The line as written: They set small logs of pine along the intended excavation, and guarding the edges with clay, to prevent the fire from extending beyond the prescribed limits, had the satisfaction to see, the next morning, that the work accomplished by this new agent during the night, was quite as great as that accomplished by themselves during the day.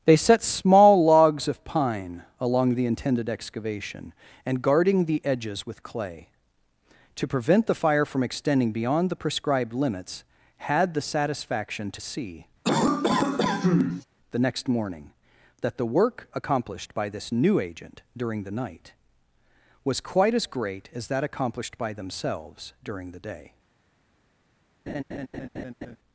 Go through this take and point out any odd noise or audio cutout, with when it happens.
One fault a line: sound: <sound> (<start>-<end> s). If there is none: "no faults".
sound: cough (12.6-14.0 s)
sound: laugh (24.9-26.0 s)